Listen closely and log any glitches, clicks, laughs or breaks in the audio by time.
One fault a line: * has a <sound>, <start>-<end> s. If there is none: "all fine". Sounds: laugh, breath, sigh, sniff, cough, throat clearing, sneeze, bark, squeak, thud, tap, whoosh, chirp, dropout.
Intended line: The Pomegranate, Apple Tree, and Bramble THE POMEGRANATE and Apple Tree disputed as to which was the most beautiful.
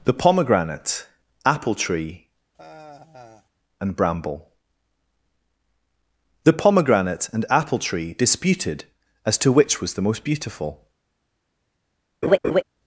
* has a sigh, 2.5-3.5 s
* has a laugh, 12.2-12.6 s